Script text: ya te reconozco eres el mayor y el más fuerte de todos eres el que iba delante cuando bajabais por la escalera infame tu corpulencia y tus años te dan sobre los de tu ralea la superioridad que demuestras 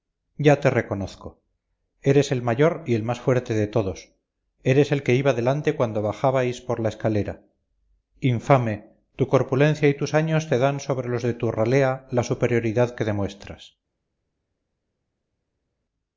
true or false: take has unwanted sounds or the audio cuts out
false